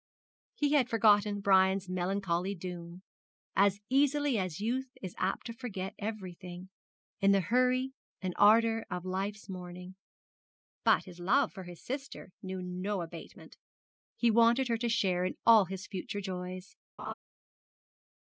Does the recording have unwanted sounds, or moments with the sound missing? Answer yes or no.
yes